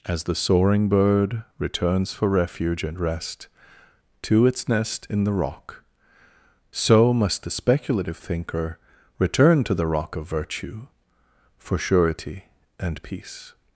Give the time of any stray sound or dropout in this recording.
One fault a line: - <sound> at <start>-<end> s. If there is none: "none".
none